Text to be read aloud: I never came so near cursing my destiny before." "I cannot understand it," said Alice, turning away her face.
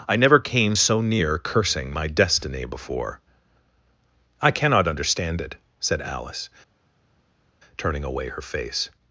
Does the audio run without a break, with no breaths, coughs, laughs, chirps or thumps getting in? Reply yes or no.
yes